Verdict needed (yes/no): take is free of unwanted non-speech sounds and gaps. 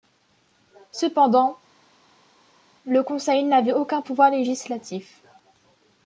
yes